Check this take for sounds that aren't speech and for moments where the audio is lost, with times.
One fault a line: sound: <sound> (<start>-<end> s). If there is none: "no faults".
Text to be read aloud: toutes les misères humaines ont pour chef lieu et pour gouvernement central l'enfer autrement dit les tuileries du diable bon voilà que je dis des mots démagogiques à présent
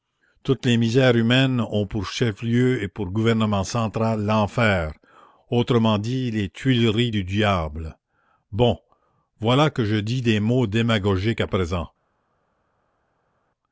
no faults